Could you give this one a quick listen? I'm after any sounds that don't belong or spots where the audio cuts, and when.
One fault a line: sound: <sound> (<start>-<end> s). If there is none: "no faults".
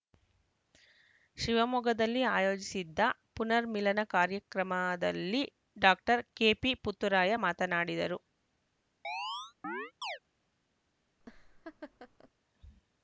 sound: chirp (9.0-10.2 s)
sound: laugh (11.2-12.3 s)